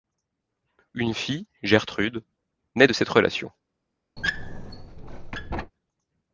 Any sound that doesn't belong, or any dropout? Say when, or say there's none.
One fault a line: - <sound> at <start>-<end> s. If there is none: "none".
- squeak at 4.2-5.7 s